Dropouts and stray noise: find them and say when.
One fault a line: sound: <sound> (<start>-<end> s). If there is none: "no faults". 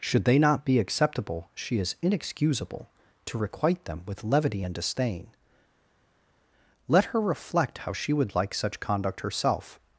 no faults